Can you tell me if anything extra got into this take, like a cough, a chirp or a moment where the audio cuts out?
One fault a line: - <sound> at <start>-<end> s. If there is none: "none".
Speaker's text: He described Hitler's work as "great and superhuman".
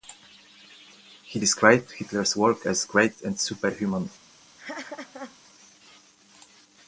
- laugh at 4.6-5.4 s